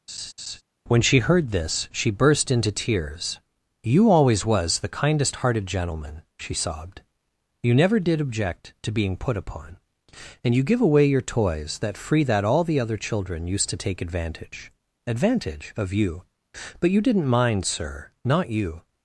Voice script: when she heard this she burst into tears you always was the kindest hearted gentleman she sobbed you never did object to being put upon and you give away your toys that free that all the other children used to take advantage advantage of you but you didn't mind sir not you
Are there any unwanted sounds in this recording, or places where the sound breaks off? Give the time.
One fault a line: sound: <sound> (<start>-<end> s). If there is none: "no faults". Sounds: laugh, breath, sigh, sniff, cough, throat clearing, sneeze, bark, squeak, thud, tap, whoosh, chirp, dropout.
sound: laugh (0.1-0.6 s)